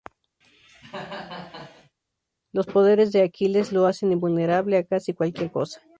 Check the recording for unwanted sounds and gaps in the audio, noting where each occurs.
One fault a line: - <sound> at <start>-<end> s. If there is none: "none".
- cough at 0.4-1.9 s